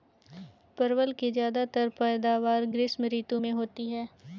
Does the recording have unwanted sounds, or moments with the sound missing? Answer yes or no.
no